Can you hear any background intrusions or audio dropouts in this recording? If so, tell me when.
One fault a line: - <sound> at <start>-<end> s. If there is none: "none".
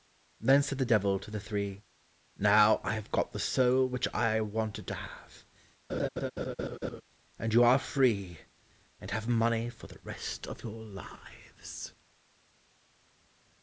- laugh at 5.9-7.0 s